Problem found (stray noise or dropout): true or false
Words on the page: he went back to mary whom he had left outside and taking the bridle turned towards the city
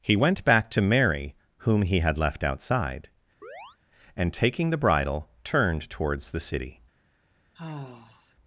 true